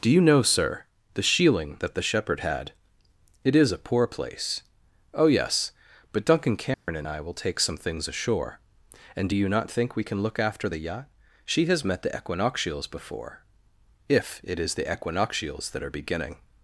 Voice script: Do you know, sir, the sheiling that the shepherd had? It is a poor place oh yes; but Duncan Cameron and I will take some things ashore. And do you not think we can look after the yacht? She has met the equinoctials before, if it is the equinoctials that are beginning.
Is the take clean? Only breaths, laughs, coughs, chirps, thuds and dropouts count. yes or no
no